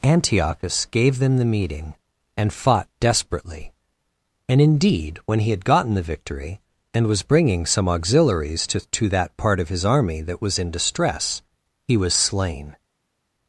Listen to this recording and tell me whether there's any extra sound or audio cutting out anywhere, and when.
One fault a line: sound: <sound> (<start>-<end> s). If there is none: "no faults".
no faults